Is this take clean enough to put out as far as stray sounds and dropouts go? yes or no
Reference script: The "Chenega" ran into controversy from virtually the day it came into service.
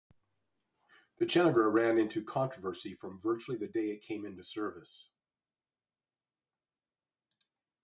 yes